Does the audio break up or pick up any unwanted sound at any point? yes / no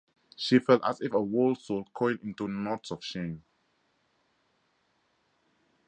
no